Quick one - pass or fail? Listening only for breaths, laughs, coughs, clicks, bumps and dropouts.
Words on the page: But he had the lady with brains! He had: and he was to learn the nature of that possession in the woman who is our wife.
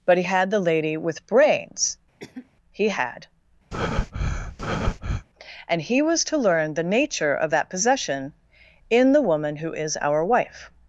fail